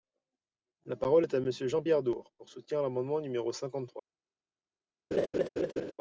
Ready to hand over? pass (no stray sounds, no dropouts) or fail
fail